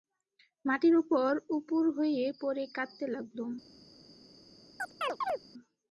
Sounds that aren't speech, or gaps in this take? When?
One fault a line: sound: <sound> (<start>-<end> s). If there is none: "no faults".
sound: chirp (4.8-5.4 s)